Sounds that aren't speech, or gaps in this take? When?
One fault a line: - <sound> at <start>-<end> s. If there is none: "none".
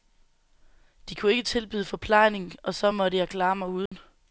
- dropout at 3.9-3.9 s